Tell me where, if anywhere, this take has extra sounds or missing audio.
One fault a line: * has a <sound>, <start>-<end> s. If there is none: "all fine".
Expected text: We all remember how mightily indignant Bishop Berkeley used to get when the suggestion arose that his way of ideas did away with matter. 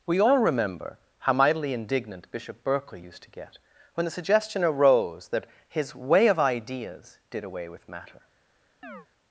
* has a chirp, 8.8-9.1 s